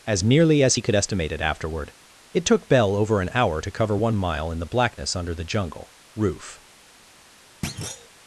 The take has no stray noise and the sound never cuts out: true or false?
false